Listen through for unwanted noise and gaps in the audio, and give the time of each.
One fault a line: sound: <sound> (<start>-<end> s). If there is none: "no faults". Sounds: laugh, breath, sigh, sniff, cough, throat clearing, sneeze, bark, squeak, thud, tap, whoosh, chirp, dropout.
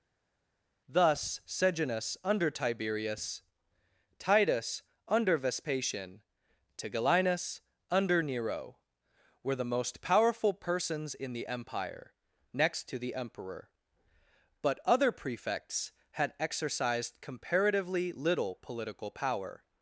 no faults